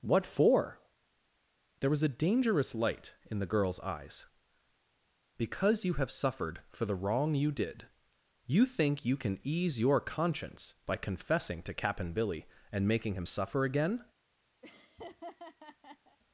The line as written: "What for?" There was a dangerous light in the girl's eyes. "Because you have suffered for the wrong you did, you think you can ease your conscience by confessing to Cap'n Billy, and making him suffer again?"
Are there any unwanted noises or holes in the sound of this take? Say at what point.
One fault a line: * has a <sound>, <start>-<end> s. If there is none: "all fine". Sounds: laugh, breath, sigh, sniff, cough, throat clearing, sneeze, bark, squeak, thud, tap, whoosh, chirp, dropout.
* has a laugh, 14.6-16.2 s